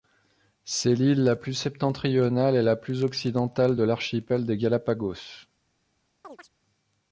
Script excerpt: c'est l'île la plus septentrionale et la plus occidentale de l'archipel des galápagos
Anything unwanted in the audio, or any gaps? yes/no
yes